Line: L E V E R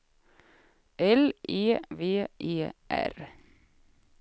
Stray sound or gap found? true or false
false